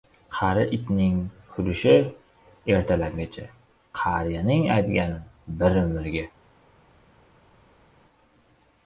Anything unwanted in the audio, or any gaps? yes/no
no